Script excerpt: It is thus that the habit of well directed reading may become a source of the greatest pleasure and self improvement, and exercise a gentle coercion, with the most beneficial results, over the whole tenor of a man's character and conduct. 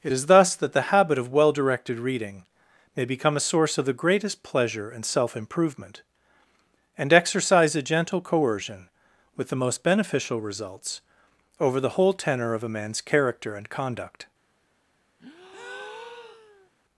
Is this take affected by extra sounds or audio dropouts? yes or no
yes